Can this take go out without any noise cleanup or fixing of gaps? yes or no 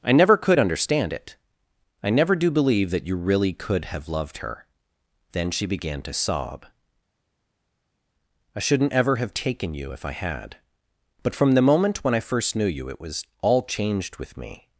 yes